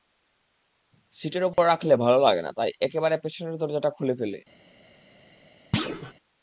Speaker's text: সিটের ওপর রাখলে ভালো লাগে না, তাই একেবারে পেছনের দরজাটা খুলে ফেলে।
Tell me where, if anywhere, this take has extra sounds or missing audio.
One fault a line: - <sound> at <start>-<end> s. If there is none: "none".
- dropout at 1.5-1.6 s
- thud at 5.7-6.1 s